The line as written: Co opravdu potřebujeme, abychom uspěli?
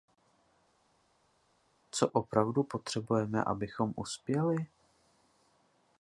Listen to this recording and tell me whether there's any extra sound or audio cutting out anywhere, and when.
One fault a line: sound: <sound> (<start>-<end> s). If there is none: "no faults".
no faults